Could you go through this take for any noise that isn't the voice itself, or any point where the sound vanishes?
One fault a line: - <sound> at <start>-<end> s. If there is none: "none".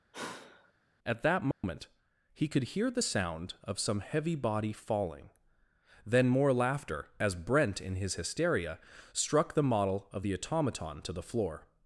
- sigh at 0.1-0.7 s
- dropout at 1.5-1.6 s